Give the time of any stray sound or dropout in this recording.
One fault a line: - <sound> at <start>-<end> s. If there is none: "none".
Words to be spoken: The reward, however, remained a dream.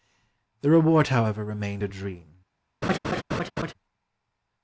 - laugh at 2.8-3.7 s